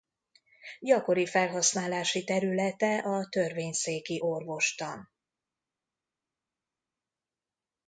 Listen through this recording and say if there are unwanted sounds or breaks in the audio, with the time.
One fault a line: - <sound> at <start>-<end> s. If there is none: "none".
none